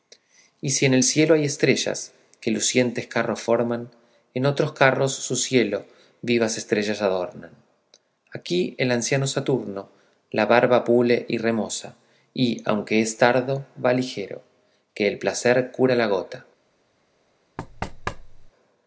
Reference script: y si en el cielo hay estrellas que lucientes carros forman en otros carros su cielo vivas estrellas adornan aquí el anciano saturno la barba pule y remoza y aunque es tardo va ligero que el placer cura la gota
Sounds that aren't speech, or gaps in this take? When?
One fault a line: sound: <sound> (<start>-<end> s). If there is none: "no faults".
sound: thud (17.6-18.5 s)